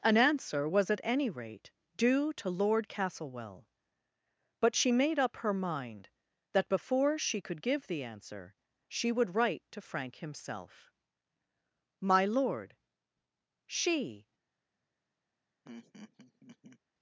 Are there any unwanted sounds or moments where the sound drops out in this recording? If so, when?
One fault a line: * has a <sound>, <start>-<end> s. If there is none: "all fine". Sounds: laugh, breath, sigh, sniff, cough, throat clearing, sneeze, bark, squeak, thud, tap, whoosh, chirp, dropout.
* has a laugh, 15.6-16.8 s